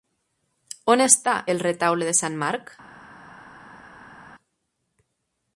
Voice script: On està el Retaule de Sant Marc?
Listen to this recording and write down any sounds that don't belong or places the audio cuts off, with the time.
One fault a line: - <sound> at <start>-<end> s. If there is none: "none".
none